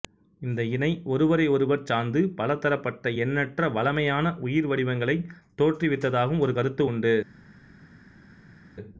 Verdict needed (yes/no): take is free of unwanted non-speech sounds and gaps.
yes